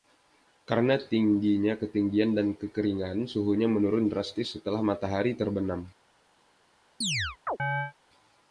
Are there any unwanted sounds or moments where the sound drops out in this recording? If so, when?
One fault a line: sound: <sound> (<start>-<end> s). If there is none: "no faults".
sound: chirp (7.0-7.9 s)